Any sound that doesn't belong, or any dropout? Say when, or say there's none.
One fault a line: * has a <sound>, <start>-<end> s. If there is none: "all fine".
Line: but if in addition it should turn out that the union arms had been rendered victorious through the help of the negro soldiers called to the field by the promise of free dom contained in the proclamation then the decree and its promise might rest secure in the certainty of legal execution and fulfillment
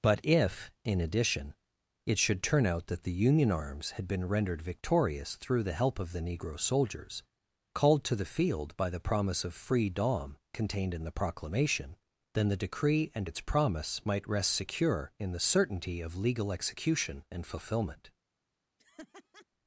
* has a laugh, 18.8-19.5 s